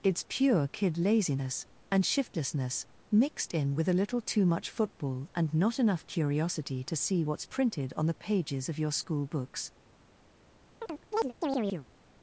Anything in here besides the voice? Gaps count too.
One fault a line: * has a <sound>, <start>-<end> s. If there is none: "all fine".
* has a chirp, 10.8-11.9 s